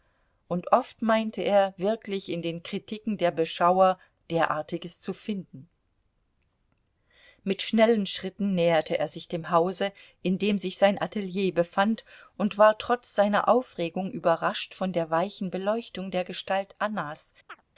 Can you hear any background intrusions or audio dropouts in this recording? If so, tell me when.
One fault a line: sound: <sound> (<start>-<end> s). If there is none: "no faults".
sound: chirp (17.5-17.6 s)